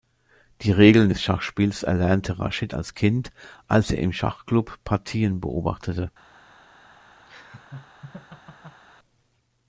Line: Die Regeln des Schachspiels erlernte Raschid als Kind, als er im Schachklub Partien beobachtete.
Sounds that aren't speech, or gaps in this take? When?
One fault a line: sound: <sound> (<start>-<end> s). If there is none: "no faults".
sound: laugh (7.3-8.8 s)